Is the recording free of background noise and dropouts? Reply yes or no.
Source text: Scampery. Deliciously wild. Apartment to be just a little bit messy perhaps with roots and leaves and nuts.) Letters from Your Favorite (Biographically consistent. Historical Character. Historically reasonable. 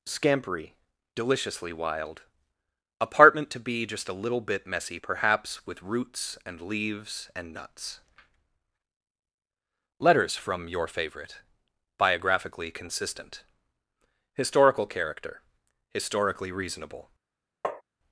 no